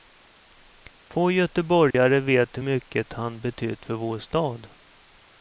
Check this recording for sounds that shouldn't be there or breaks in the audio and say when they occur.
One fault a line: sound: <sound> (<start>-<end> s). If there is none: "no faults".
sound: dropout (1.9-1.9 s)